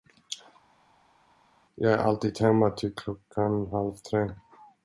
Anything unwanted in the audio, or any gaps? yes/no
no